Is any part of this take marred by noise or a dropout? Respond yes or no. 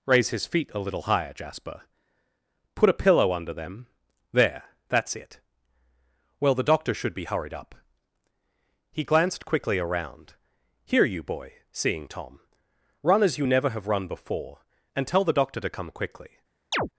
yes